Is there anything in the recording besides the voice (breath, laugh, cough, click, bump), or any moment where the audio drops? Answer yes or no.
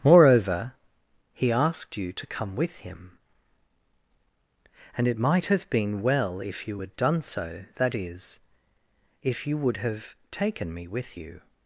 no